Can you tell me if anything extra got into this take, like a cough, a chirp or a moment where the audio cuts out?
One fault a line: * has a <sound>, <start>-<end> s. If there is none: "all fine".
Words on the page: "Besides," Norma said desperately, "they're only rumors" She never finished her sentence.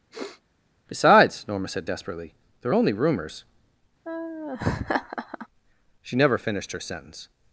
* has a sniff, 0.1-0.4 s
* has a laugh, 4.0-5.5 s